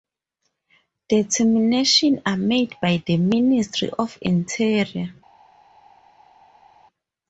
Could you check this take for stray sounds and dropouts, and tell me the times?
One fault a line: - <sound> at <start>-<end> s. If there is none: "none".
none